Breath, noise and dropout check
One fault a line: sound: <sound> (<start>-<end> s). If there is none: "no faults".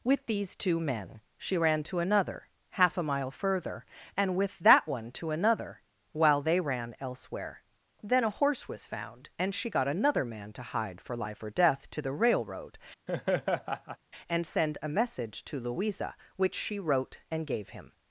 sound: laugh (13.1-14.0 s)